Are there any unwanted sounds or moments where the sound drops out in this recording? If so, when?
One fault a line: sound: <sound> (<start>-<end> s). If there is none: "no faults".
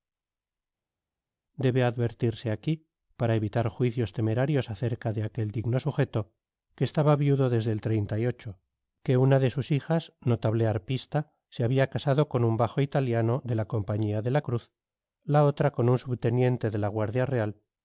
no faults